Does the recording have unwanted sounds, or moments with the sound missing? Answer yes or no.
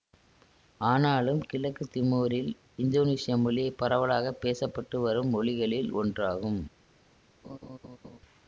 yes